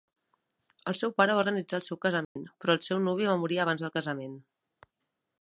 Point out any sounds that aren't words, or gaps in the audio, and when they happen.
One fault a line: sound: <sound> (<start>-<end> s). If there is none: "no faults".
sound: dropout (2.2-2.4 s)